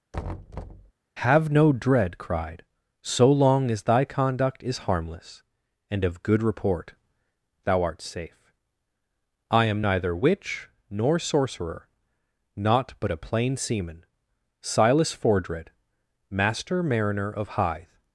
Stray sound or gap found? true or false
true